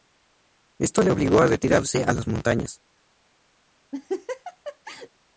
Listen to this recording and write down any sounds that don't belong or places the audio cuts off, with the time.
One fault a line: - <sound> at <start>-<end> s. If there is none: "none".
- laugh at 3.9-5.1 s